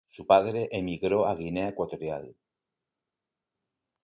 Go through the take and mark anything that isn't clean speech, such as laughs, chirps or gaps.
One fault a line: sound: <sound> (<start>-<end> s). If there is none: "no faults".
no faults